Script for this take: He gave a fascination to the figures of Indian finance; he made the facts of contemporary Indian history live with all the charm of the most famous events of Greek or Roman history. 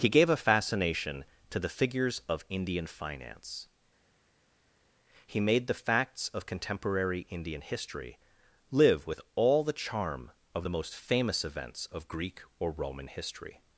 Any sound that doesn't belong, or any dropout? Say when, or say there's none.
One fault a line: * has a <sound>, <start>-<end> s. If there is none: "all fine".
all fine